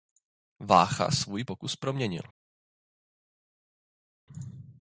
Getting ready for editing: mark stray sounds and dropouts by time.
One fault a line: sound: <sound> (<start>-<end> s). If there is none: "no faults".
no faults